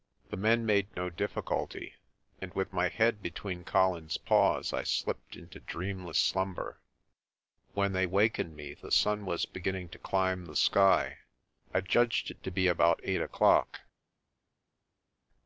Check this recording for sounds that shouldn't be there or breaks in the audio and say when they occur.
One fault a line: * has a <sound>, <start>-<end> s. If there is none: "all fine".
all fine